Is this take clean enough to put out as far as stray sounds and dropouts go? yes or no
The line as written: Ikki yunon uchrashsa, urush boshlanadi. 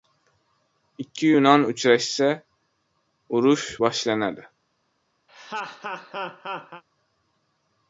no